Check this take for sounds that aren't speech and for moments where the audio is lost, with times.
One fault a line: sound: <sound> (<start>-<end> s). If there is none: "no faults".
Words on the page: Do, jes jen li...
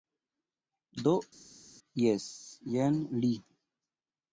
no faults